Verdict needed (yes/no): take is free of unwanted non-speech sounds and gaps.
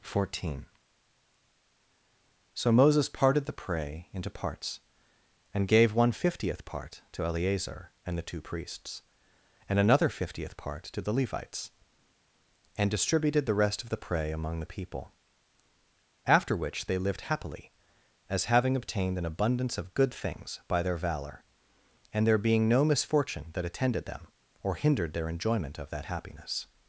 yes